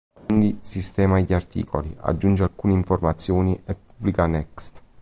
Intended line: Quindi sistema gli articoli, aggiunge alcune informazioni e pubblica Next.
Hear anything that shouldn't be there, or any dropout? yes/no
yes